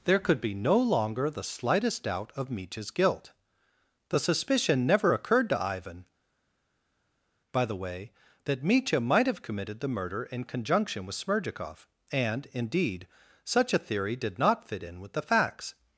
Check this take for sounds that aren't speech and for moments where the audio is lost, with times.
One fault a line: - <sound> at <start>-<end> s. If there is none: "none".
none